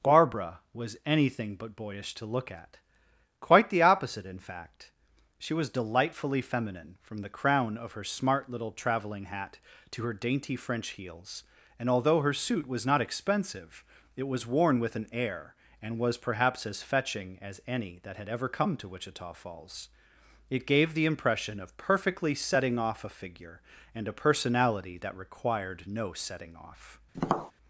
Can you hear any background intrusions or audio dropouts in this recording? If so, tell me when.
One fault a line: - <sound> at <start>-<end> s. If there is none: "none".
- tap at 27.1-27.5 s